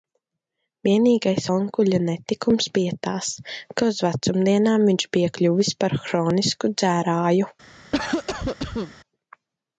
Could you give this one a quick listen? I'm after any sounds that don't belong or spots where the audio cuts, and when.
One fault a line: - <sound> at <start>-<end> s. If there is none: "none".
- cough at 7.9-8.9 s